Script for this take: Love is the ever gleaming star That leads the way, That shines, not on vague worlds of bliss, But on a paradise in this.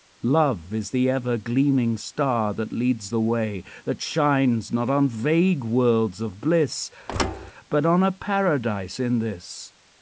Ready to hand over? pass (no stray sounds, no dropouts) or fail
fail